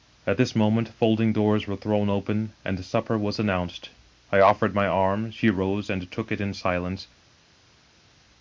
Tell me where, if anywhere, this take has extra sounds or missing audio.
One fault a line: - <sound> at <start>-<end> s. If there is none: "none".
none